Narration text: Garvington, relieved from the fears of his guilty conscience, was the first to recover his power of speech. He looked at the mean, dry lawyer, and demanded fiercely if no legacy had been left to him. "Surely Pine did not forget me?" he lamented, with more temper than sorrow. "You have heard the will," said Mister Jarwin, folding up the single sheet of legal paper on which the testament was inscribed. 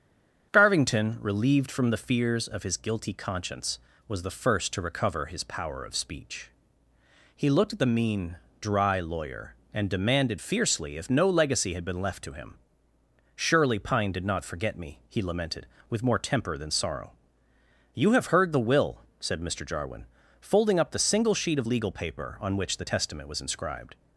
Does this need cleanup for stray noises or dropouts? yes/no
no